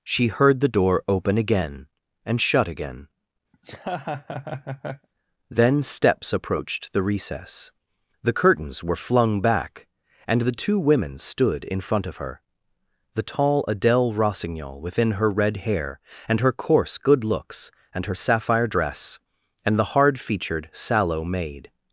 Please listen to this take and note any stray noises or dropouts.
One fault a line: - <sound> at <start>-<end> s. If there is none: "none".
- laugh at 3.5-5.1 s